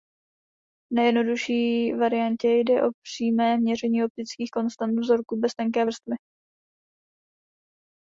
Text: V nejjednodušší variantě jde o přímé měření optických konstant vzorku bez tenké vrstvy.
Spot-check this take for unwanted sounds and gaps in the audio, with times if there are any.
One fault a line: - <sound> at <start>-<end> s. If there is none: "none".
none